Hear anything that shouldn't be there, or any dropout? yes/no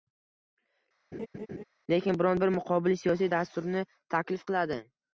yes